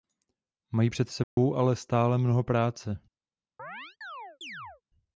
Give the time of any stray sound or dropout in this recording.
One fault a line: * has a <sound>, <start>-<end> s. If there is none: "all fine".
* has a dropout, 1.2-1.4 s
* has a chirp, 3.6-4.8 s